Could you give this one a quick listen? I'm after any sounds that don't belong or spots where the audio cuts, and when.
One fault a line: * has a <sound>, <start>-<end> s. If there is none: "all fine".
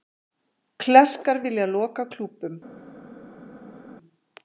all fine